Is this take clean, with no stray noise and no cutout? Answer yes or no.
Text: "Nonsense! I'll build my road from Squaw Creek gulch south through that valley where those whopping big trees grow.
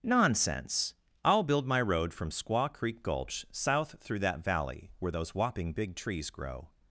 yes